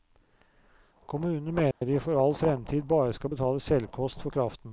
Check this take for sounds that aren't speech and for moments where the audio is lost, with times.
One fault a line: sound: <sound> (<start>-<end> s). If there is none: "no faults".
sound: dropout (1.7-1.8 s)